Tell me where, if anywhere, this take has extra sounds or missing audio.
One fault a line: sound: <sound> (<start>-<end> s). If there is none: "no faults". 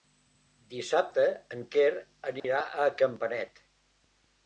sound: dropout (2.4-2.4 s)